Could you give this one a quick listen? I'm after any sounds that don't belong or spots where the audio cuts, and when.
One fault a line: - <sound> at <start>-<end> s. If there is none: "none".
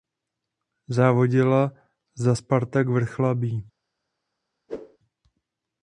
- whoosh at 4.7-5.0 s